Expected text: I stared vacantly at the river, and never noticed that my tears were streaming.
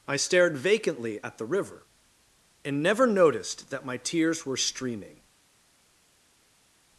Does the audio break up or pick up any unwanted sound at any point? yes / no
no